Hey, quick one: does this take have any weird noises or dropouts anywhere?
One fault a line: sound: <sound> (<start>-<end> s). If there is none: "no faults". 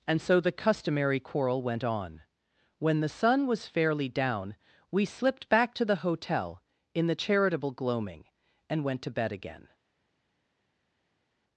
no faults